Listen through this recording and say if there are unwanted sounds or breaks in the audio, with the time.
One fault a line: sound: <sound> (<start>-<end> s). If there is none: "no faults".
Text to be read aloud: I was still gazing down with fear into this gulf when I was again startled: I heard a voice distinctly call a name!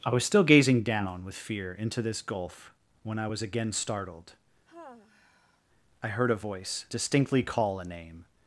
sound: sigh (4.7-5.6 s)